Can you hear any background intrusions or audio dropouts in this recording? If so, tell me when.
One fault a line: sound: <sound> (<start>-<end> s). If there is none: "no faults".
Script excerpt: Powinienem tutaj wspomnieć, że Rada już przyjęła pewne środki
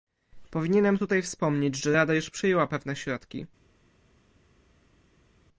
no faults